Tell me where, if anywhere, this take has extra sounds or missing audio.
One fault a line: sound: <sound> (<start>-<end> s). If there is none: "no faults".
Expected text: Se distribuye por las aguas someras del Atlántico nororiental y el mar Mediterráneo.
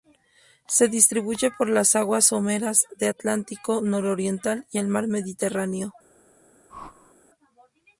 sound: whoosh (6.7-7.1 s)